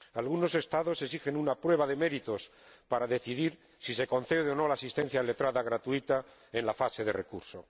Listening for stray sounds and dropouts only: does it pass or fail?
pass